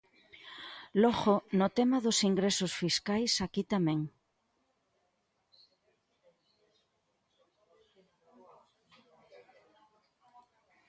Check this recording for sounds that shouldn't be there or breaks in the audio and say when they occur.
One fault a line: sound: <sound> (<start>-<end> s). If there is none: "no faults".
no faults